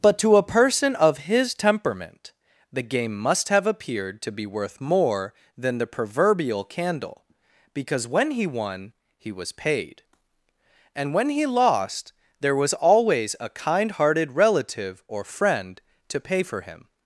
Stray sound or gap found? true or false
false